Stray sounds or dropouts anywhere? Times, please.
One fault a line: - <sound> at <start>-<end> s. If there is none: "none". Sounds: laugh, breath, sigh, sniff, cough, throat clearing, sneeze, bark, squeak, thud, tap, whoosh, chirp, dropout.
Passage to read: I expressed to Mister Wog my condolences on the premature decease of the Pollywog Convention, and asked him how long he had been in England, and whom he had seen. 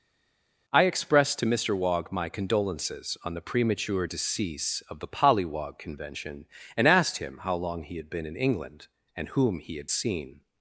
none